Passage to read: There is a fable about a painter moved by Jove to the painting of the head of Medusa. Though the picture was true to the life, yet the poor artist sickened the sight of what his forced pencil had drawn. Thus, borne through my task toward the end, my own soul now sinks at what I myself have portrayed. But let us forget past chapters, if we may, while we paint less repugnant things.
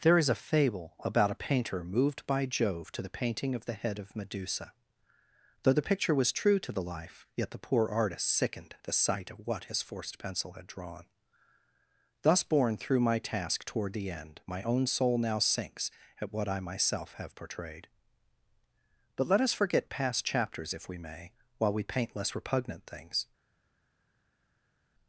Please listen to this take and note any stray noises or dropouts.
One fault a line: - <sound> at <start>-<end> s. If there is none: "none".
none